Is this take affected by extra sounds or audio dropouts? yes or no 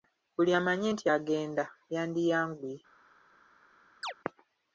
yes